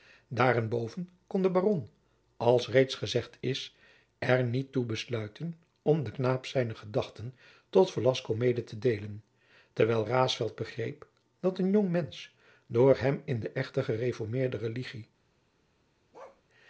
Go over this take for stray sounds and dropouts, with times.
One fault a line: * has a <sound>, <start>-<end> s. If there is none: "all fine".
* has a bark, 16.1-16.4 s